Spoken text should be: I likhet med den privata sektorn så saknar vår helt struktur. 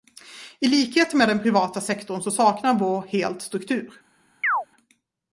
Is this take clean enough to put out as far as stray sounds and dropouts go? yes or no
no